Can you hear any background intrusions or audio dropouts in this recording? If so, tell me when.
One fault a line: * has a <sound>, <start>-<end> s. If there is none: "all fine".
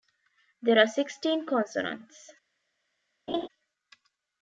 * has a laugh, 3.3-3.5 s